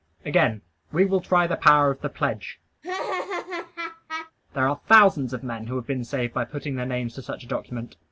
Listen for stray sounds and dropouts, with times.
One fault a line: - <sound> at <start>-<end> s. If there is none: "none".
- laugh at 2.8-4.3 s